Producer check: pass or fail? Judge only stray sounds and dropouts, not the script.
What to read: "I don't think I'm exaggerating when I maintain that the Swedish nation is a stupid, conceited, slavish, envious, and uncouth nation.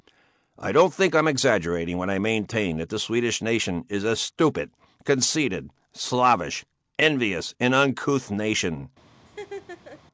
fail